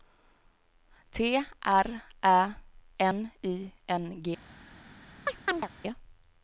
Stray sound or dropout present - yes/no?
yes